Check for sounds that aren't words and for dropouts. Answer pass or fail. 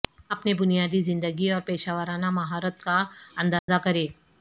fail